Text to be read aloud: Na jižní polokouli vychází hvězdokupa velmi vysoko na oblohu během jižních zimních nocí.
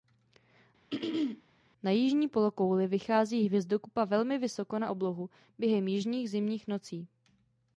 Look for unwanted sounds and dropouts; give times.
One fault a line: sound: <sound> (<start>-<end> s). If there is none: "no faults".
sound: throat clearing (0.9-1.4 s)